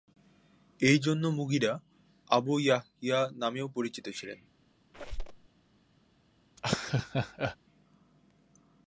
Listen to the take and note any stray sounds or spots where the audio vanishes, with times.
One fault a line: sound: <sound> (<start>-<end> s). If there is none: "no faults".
sound: squeak (4.9-5.5 s)
sound: laugh (6.6-7.6 s)